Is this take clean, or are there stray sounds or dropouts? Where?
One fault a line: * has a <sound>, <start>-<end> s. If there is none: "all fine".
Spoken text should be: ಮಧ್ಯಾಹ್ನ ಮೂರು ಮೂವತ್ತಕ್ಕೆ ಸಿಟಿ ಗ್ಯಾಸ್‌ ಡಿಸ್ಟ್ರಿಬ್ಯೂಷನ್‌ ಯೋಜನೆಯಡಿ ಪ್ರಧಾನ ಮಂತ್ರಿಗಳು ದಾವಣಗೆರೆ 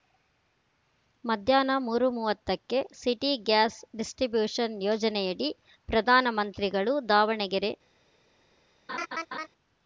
* has a laugh, 8.9-9.5 s